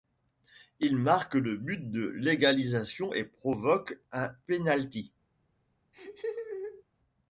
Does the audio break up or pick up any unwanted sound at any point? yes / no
yes